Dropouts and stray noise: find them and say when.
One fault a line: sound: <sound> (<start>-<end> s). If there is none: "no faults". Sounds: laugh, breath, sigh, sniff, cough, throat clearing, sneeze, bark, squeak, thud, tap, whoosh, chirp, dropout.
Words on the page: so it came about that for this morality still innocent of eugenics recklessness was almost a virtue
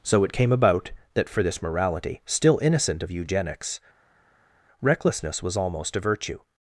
no faults